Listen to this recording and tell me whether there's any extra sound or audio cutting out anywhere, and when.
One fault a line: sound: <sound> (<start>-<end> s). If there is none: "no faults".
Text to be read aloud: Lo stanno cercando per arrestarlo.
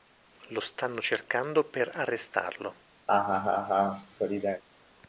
sound: laugh (3.1-4.6 s)